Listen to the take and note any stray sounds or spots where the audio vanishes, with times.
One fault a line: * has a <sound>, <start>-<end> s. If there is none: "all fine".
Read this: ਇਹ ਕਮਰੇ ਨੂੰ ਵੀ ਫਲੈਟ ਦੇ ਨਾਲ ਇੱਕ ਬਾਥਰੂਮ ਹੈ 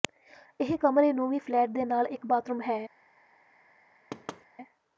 * has a thud, 4.1-4.5 s